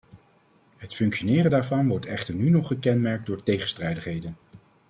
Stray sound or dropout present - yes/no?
no